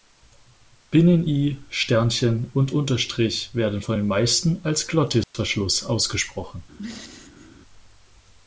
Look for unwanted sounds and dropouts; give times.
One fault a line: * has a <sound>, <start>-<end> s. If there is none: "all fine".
* has a dropout, 5.2-5.3 s
* has a throat clearing, 6.8-7.5 s